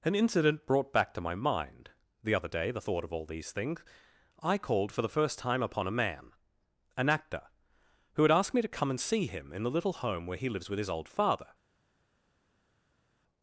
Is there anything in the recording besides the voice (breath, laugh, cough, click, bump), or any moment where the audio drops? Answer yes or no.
no